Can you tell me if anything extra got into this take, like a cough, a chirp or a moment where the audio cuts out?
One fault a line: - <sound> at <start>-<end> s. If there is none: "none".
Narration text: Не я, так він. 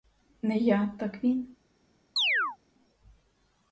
- chirp at 2.2-2.6 s